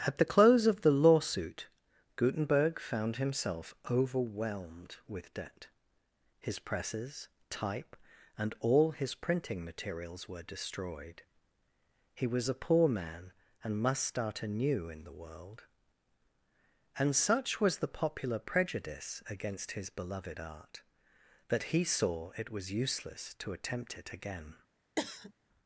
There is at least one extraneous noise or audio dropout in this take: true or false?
true